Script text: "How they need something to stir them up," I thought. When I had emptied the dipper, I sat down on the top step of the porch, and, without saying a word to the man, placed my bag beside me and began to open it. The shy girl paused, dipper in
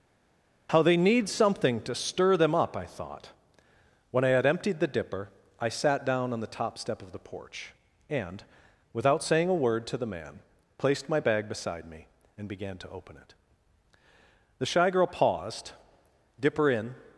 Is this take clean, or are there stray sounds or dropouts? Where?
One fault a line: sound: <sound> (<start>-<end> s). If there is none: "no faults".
no faults